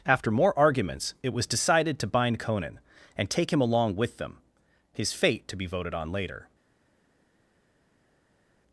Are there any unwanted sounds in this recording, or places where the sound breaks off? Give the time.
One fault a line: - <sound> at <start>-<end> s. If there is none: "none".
none